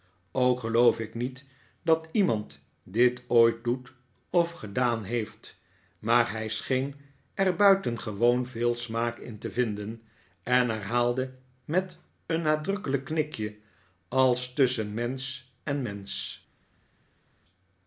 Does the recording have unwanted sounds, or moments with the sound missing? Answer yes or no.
no